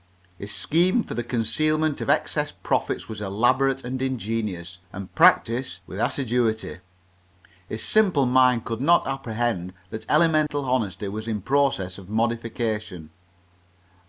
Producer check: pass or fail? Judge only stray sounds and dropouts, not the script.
fail